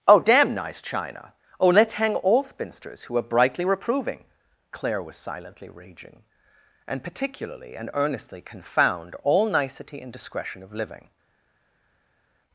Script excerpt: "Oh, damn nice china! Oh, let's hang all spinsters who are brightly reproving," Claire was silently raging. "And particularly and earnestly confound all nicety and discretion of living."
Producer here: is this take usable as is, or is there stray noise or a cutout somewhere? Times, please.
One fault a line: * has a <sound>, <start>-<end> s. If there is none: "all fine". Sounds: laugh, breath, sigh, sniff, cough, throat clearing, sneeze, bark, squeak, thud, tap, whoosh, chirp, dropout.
all fine